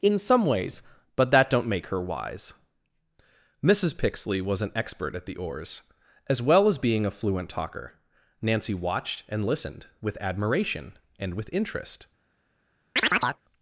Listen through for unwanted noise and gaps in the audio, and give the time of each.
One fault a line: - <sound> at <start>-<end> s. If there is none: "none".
- chirp at 13.0-13.4 s